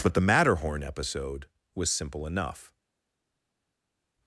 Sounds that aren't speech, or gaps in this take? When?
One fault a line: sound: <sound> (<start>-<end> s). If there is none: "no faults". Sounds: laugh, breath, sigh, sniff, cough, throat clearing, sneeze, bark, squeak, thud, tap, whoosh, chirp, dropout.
no faults